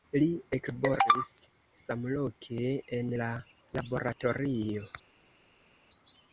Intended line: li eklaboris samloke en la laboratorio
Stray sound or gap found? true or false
false